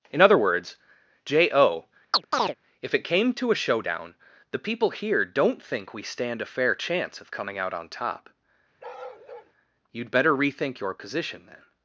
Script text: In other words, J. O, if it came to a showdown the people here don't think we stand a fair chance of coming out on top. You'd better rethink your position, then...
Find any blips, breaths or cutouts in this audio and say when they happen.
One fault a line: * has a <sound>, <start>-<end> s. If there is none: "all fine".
* has a chirp, 2.1-2.6 s
* has a bark, 8.8-9.5 s